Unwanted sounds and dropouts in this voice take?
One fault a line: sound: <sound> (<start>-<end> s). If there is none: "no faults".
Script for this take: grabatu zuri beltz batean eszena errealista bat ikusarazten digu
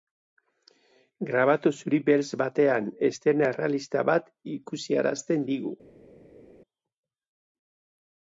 no faults